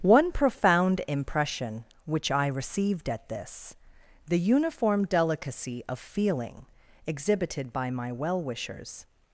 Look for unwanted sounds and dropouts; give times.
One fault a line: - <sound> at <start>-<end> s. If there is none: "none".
none